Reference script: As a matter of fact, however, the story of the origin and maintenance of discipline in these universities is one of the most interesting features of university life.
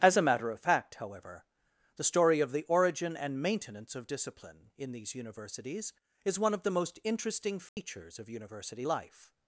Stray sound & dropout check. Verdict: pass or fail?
fail